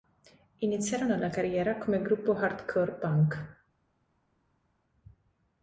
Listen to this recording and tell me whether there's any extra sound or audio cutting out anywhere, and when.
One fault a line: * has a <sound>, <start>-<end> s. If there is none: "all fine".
all fine